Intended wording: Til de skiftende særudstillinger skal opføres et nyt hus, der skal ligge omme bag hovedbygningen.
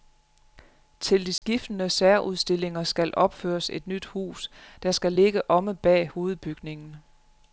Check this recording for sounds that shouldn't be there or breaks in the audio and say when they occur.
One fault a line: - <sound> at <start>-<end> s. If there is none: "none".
- dropout at 1.4-1.4 s